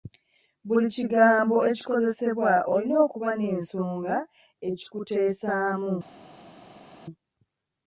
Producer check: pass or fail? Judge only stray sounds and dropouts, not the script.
pass